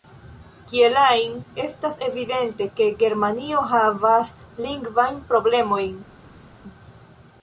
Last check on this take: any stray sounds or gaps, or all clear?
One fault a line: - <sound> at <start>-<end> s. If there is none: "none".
none